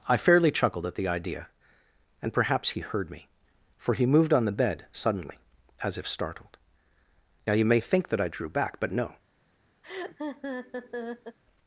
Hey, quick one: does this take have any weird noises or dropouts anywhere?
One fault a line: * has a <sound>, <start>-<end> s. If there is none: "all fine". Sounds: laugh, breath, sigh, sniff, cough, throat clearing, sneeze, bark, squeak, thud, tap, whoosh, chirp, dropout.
* has a laugh, 9.8-11.4 s